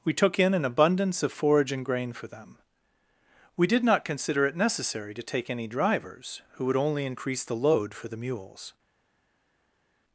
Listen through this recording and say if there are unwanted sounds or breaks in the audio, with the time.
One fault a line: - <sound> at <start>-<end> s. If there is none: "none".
none